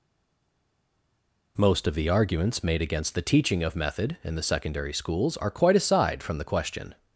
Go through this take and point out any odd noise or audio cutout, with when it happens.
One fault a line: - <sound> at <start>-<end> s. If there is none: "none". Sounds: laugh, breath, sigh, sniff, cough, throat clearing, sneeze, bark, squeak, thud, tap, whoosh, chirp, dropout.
none